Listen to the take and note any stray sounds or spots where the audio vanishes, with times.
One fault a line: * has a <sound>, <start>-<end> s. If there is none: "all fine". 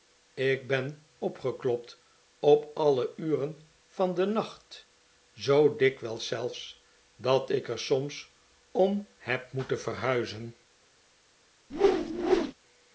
* has a whoosh, 11.7-12.5 s